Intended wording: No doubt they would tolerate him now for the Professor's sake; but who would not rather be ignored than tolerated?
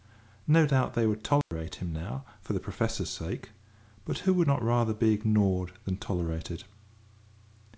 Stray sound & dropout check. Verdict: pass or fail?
fail